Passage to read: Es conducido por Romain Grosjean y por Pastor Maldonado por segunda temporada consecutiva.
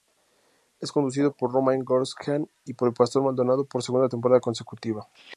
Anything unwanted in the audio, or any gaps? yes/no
no